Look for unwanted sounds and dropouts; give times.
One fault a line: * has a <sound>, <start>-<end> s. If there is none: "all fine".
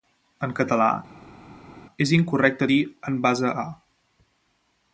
all fine